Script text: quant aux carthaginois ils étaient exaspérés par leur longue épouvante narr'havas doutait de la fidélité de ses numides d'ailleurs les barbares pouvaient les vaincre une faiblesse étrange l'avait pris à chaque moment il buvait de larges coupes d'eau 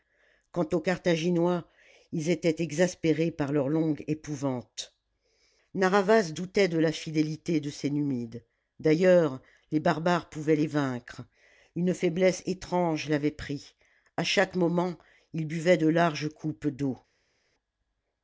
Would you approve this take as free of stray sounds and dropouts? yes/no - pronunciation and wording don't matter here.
yes